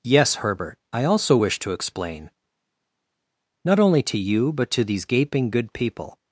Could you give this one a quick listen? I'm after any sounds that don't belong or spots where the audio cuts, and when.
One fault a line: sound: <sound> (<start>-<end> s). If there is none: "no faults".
no faults